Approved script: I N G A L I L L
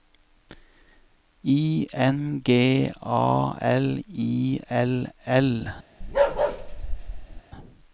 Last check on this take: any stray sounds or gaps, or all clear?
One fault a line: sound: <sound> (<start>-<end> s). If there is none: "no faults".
sound: bark (6.0-7.4 s)